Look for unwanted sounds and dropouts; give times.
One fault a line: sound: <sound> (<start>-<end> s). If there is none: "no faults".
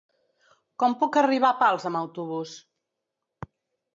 no faults